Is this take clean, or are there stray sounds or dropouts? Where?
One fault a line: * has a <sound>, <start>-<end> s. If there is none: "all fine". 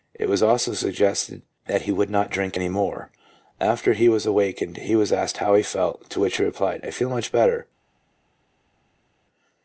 all fine